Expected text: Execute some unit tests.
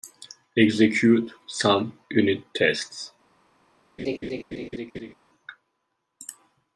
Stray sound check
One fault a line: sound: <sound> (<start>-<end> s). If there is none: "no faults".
sound: laugh (4.0-5.1 s)